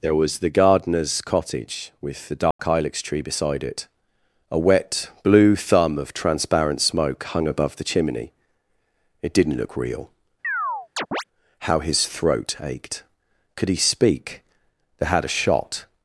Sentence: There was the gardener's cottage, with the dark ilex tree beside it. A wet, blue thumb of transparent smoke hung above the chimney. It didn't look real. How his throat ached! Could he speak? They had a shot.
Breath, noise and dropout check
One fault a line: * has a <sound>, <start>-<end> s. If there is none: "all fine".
* has a dropout, 2.5-2.6 s
* has a chirp, 10.4-11.2 s